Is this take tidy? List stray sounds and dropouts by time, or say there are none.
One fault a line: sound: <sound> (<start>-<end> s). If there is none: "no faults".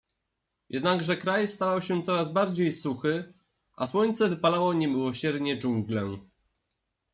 no faults